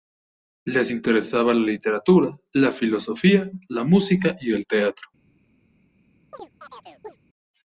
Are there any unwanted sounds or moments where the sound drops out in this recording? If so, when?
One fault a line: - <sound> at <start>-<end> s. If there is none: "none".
- chirp at 6.3-7.2 s